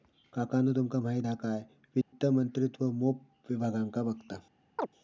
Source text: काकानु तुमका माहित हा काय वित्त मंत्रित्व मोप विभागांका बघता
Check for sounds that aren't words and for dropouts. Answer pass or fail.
fail